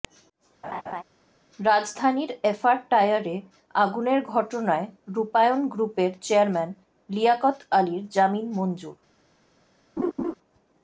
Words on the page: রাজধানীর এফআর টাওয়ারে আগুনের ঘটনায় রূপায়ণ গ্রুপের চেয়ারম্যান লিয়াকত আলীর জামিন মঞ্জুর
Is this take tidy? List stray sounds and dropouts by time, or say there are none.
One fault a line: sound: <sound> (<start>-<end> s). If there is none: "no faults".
sound: laugh (0.6-1.0 s)
sound: laugh (10.0-10.3 s)